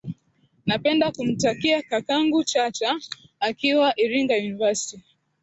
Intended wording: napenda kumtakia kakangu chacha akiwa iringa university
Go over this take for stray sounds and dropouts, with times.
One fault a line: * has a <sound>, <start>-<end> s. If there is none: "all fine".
all fine